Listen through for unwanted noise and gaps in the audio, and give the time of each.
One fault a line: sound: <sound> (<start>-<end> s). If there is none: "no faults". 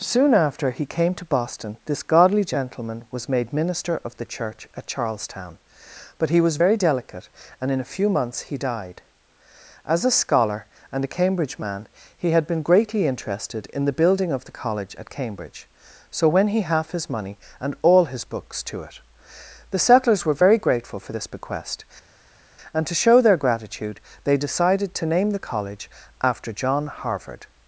no faults